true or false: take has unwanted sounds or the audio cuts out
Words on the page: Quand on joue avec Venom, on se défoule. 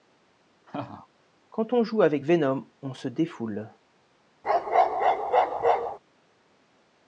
true